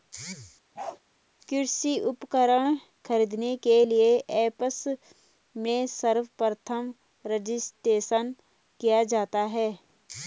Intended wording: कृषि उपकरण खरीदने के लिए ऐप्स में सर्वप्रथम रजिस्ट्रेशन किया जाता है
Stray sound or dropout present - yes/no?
yes